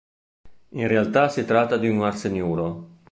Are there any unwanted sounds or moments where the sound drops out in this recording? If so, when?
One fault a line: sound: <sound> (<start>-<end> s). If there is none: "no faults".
no faults